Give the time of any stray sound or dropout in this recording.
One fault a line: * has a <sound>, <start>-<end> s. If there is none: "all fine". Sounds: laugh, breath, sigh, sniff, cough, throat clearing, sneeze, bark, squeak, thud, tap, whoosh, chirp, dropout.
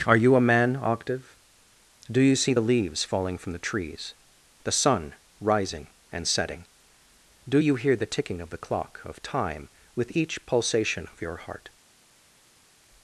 all fine